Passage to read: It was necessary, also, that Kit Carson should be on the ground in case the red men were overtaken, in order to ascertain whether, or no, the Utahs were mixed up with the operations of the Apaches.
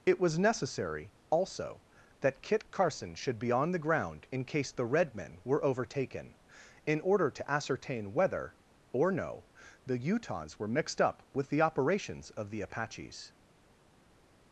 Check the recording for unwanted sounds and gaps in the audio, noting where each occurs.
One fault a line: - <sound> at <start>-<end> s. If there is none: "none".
none